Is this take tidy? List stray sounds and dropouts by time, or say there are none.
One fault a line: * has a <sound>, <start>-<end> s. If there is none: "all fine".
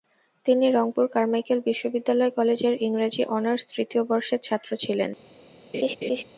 * has a laugh, 5.7-6.2 s